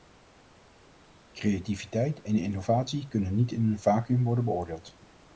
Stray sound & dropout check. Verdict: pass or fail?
pass